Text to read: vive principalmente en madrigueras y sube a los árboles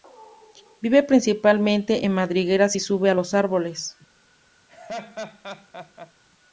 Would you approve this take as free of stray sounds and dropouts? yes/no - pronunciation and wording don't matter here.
no